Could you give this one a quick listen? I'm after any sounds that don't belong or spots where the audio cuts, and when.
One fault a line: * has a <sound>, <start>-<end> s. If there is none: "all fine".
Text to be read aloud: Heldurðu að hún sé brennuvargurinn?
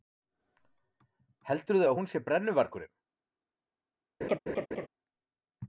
* has a laugh, 4.2-4.9 s